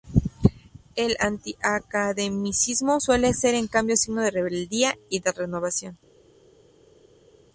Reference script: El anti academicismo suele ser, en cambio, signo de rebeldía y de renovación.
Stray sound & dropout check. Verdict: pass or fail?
pass